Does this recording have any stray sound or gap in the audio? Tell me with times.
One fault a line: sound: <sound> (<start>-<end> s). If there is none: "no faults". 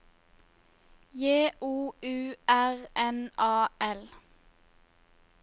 no faults